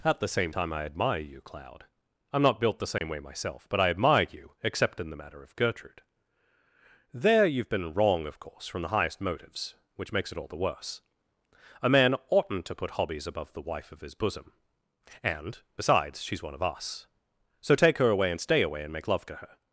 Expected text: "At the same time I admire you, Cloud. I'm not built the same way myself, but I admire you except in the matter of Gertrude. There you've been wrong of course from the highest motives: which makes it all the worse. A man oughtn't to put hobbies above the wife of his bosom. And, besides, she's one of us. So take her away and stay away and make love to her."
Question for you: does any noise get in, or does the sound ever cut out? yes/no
yes